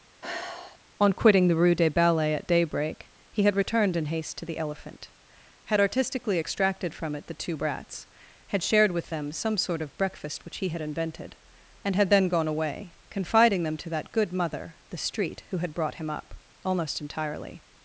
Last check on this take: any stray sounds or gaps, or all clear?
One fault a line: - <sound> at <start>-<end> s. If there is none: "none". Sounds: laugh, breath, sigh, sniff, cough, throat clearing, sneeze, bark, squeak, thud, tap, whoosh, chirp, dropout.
- sigh at 0.2-0.8 s